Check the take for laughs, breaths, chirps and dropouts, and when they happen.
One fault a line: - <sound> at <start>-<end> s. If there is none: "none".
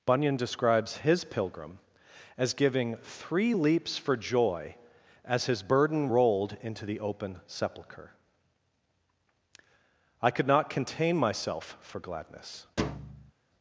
- thud at 12.8-13.3 s